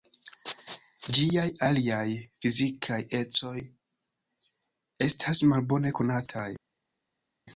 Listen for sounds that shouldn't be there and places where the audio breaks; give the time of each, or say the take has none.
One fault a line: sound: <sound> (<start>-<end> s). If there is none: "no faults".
no faults